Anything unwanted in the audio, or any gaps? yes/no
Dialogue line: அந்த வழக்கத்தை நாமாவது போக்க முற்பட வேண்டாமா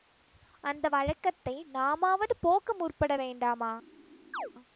yes